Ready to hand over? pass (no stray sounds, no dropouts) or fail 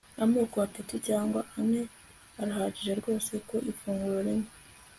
pass